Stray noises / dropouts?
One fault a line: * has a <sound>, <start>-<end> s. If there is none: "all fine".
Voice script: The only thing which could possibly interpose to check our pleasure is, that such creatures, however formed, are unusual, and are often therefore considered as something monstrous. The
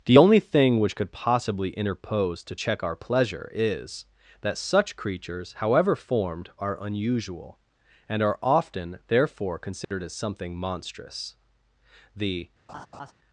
* has a dropout, 9.8-9.9 s
* has a laugh, 12.7-13.1 s